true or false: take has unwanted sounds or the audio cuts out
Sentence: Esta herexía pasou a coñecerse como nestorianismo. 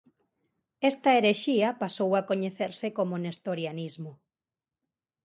false